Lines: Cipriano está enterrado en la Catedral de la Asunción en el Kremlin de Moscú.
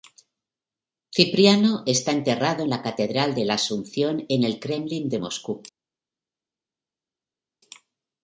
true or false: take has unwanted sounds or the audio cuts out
false